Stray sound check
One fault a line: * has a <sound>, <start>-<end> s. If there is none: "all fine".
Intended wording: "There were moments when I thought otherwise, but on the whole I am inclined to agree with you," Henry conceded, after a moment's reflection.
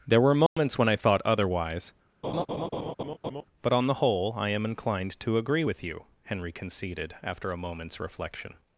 * has a dropout, 0.5-0.6 s
* has a laugh, 2.2-3.4 s